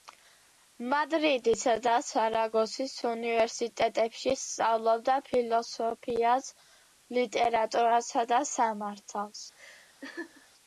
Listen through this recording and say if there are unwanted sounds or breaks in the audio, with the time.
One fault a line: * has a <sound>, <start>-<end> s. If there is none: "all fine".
* has a laugh, 9.6-10.5 s